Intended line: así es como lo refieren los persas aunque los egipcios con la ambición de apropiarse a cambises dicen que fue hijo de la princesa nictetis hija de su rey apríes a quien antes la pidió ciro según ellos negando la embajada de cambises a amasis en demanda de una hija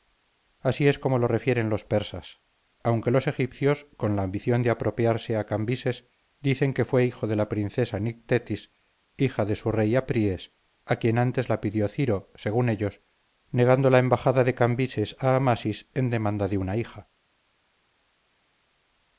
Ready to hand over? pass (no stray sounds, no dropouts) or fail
pass